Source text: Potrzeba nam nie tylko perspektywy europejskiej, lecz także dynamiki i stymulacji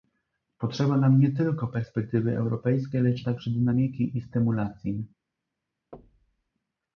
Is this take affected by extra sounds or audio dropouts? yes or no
yes